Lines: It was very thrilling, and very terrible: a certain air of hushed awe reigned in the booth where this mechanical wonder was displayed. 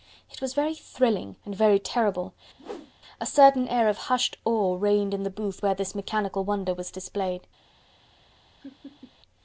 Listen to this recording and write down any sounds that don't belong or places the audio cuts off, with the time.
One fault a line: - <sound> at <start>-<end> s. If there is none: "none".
- whoosh at 2.6-2.9 s
- laugh at 8.6-9.1 s